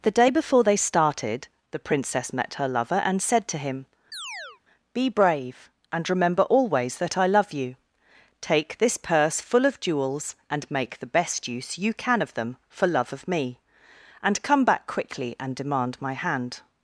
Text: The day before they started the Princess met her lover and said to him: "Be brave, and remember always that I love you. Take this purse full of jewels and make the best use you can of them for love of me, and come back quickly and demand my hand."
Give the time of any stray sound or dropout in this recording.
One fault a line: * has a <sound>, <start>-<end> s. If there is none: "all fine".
* has a chirp, 4.1-4.6 s